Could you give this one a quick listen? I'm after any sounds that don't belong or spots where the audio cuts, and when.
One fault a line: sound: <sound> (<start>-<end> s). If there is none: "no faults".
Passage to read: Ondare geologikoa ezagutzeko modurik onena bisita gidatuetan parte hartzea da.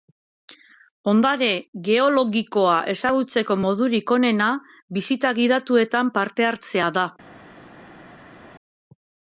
no faults